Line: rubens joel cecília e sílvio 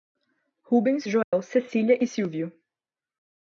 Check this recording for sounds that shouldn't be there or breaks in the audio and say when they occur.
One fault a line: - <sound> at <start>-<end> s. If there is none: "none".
- dropout at 1.2-1.3 s